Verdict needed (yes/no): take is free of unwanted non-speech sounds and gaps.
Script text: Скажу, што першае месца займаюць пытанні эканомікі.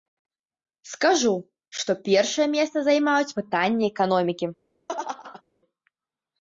no